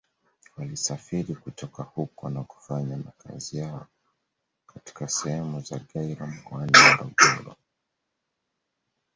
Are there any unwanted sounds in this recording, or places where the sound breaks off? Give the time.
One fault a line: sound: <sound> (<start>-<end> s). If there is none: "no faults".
no faults